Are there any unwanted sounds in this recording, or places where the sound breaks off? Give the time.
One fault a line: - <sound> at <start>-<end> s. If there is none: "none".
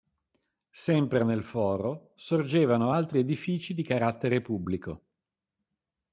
none